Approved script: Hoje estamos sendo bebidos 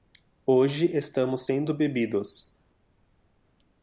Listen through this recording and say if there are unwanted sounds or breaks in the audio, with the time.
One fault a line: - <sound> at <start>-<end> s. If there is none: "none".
none